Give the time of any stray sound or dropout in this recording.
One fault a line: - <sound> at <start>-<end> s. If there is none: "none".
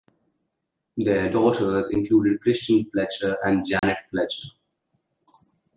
- dropout at 3.8-3.8 s